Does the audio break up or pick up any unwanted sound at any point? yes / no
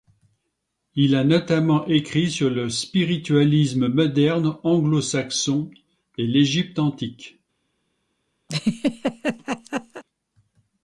yes